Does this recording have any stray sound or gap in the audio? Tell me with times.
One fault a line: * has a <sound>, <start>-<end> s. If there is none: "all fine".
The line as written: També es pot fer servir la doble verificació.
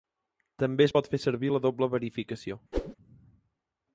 * has a whoosh, 2.7-3.0 s